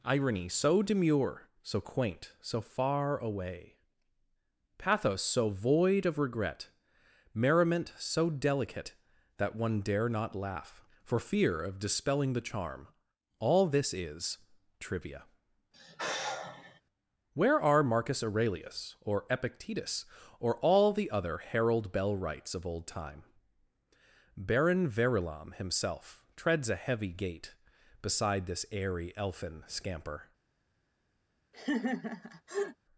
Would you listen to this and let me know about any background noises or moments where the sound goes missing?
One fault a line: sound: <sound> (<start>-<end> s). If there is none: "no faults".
sound: sigh (15.7-16.8 s)
sound: laugh (31.5-32.8 s)